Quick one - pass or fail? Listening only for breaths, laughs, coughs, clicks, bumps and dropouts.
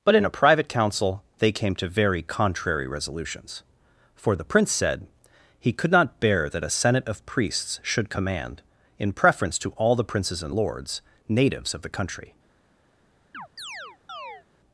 fail